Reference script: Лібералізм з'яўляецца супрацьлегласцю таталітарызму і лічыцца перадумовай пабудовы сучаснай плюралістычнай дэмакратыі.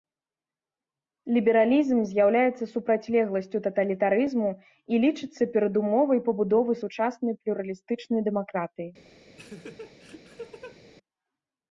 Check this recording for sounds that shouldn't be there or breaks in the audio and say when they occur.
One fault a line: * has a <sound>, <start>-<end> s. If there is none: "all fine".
* has a laugh, 9.4-10.8 s